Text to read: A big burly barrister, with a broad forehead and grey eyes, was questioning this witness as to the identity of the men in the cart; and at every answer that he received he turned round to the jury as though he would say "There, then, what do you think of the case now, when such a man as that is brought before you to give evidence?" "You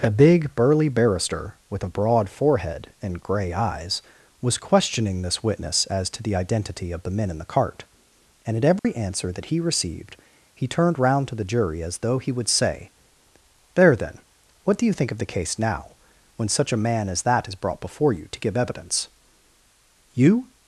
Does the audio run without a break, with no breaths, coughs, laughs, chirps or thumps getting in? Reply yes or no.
no